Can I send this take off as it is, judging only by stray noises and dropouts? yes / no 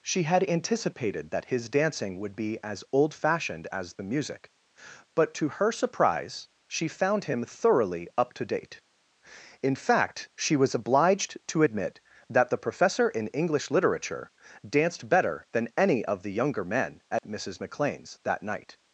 no